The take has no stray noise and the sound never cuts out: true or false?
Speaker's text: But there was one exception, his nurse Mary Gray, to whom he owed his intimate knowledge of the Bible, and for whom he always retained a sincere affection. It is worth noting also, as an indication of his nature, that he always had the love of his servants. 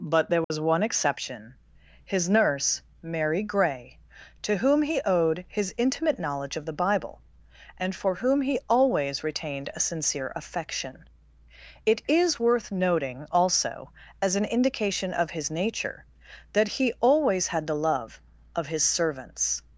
false